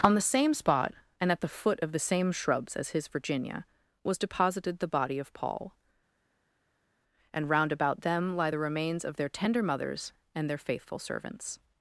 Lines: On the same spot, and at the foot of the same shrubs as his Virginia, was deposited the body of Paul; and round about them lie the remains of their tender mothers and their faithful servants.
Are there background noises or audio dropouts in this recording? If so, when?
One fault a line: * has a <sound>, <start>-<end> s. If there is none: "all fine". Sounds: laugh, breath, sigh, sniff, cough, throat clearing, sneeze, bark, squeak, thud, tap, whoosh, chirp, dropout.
all fine